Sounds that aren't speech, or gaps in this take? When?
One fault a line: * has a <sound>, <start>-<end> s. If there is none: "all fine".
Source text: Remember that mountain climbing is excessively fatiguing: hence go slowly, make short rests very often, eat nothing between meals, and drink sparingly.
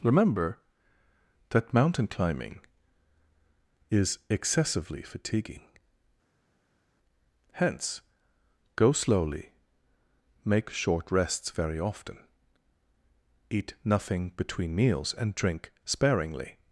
all fine